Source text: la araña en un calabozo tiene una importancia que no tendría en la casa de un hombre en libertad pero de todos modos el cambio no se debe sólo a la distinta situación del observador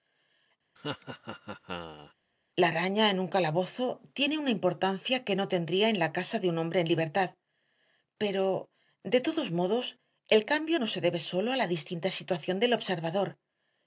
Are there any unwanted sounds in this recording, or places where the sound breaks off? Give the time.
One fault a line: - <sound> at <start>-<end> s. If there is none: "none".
- laugh at 0.8-2.1 s